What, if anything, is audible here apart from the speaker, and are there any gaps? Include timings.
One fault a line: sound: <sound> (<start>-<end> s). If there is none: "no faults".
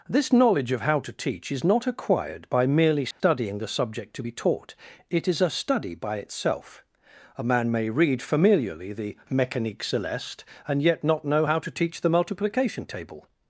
sound: dropout (3.1-3.2 s)